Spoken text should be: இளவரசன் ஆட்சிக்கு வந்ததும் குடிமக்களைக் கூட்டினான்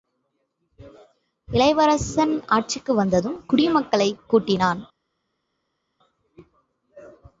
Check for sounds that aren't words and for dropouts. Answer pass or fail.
pass